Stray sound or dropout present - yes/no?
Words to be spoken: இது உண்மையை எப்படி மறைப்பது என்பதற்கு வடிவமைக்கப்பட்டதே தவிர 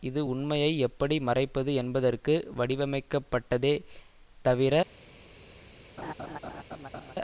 yes